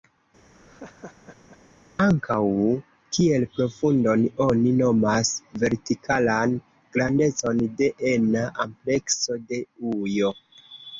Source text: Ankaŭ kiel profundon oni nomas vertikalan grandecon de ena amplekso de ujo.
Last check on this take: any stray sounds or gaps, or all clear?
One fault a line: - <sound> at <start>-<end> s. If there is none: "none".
- laugh at 0.5-1.6 s